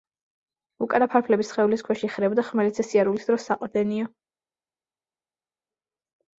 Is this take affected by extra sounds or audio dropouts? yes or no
no